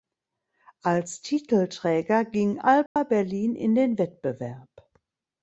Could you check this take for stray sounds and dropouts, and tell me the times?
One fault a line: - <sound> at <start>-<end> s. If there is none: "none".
- dropout at 2.9-3.0 s